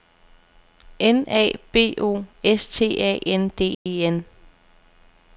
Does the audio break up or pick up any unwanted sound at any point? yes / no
yes